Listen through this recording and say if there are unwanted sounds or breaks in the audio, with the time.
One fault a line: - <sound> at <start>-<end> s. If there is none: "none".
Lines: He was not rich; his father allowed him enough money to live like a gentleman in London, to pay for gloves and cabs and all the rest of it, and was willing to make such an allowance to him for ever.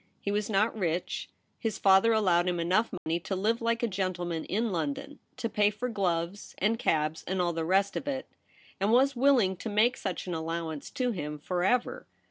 - dropout at 3.0-3.1 s